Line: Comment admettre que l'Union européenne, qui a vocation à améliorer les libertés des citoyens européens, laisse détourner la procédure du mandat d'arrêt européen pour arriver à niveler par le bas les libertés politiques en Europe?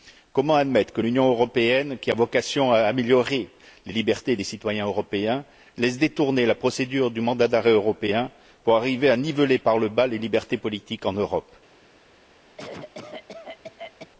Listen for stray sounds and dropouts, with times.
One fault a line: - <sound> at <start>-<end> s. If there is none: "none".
- cough at 12.6-14.1 s